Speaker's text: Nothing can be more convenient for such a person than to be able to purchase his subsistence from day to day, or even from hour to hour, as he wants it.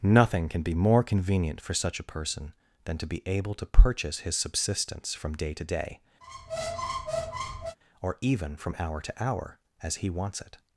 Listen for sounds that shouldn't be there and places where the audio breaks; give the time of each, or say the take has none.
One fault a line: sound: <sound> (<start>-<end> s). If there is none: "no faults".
sound: squeak (6.2-7.8 s)